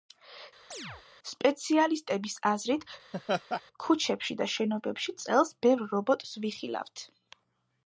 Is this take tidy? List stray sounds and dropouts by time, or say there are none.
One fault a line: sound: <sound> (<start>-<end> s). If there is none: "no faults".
sound: chirp (0.7-1.0 s)
sound: laugh (3.1-3.6 s)